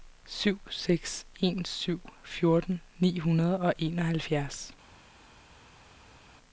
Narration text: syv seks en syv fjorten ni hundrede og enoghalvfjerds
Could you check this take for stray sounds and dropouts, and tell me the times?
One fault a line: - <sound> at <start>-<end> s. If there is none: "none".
none